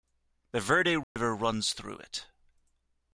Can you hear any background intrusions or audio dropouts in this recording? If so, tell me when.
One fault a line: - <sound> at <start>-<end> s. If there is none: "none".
- dropout at 1.0-1.2 s